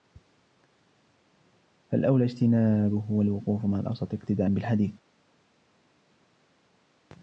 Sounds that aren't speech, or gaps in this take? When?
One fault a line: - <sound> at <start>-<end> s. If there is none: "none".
none